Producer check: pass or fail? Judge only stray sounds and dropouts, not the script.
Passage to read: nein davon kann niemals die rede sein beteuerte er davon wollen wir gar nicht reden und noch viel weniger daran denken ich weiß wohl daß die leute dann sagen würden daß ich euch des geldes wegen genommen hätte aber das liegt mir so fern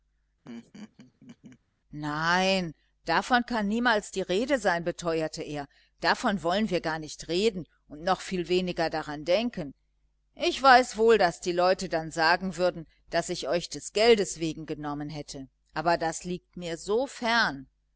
fail